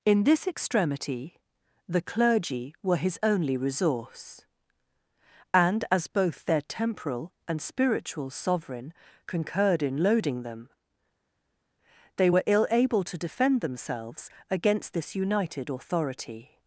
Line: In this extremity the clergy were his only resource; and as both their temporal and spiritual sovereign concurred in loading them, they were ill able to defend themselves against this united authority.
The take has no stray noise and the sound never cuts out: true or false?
true